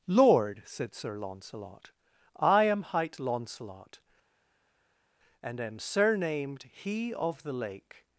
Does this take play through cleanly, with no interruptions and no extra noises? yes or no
yes